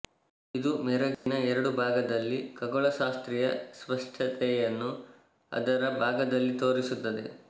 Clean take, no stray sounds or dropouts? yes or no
no